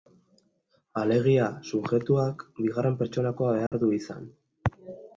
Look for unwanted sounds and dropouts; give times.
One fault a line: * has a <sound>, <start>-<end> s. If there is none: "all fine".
* has a dropout, 3.7-3.7 s